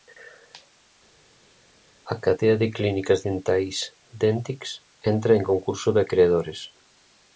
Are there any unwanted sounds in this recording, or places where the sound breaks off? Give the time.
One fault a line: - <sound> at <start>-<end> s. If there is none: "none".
none